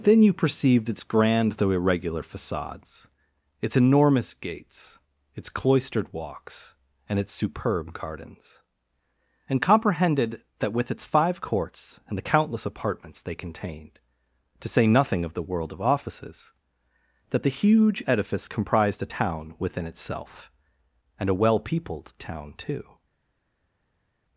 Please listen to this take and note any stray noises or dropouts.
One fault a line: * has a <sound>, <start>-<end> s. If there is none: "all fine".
all fine